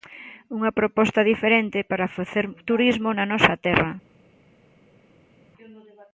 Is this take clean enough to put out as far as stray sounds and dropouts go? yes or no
yes